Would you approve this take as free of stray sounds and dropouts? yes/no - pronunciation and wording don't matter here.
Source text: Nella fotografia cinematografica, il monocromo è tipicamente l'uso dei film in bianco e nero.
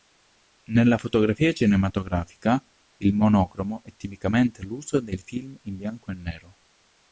yes